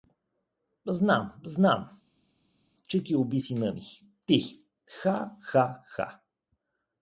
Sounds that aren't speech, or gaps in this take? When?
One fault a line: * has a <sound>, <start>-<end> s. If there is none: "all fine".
all fine